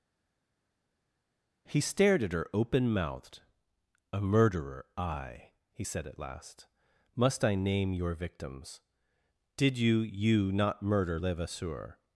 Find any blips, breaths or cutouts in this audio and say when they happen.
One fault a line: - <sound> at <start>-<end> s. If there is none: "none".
none